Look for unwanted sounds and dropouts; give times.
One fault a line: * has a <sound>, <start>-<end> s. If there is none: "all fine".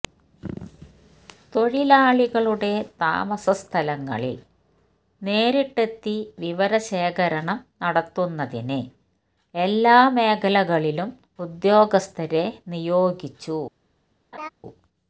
* has a laugh, 14.3-14.5 s